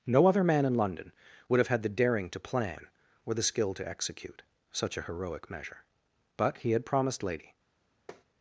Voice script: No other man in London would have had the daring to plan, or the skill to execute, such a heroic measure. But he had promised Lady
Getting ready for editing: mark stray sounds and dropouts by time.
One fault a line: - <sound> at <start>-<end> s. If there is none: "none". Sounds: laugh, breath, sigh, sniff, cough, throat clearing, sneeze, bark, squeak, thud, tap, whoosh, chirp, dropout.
- tap at 8.1-8.2 s